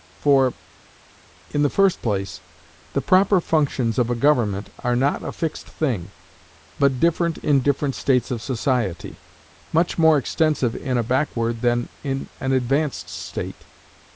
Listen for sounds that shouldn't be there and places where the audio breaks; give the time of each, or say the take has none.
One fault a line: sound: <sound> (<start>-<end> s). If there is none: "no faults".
no faults